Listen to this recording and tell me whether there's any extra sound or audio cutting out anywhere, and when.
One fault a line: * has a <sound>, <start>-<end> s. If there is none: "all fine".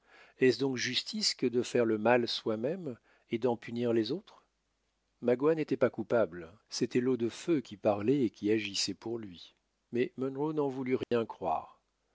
* has a dropout, 11.0-11.1 s